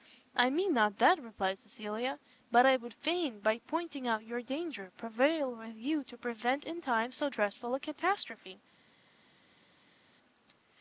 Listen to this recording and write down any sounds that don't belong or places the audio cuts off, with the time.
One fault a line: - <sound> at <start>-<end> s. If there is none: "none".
none